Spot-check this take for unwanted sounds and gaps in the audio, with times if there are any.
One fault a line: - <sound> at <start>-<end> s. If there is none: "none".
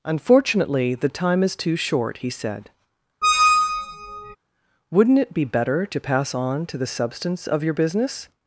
- squeak at 3.2-4.4 s